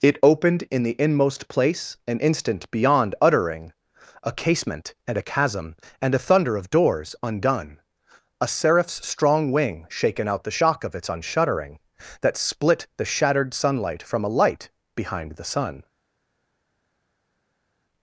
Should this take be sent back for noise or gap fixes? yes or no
no